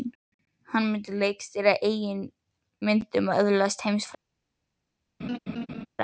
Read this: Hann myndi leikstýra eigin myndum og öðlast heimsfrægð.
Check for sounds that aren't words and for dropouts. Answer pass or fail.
fail